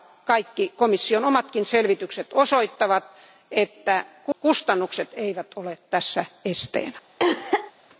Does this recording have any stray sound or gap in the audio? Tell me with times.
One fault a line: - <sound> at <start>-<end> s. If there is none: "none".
- cough at 7.2-7.7 s